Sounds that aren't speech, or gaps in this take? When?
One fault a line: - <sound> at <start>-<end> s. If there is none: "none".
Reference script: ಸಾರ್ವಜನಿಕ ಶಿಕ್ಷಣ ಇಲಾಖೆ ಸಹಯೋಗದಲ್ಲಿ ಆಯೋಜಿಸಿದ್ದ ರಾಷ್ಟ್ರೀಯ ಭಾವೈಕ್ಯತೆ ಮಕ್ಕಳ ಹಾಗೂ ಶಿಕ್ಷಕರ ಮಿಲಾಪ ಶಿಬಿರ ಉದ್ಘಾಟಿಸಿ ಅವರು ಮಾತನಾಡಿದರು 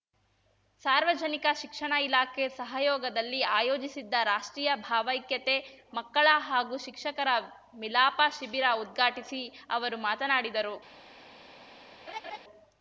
- laugh at 12.1-12.4 s